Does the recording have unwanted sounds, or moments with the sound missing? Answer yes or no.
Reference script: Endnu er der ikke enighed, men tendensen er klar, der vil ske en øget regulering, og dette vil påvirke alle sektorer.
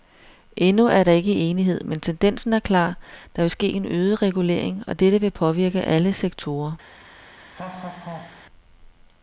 yes